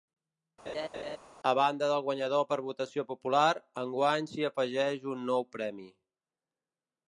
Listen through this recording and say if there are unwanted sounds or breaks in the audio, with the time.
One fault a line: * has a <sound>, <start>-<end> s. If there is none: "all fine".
* has a laugh, 0.7-1.2 s